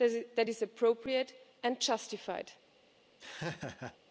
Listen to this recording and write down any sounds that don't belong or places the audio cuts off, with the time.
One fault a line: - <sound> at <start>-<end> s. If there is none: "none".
- laugh at 3.2-4.0 s